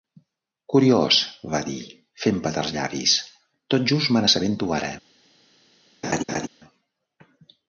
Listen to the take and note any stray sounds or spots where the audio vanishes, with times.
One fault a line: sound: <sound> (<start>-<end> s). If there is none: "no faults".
sound: laugh (6.0-6.5 s)